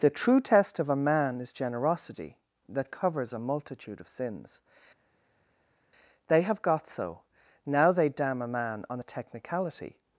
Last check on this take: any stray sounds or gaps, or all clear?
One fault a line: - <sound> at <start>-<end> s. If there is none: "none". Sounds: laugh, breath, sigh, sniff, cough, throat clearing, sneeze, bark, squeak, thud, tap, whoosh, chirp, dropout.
none